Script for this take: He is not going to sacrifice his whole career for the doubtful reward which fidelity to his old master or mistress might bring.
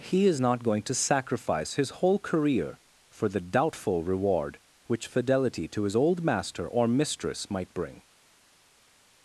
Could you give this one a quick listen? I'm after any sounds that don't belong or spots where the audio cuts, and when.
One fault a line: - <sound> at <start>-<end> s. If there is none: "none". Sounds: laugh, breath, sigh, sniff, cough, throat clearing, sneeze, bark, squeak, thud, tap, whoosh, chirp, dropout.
none